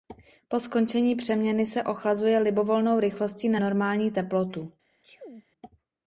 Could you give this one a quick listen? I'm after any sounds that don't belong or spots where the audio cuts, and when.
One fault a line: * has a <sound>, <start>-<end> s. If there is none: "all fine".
* has a sneeze, 5.0-5.5 s